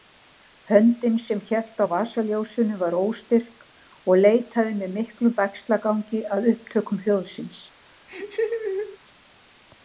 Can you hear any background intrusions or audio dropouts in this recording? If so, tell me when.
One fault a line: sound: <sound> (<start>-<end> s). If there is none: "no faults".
sound: laugh (8.1-9.0 s)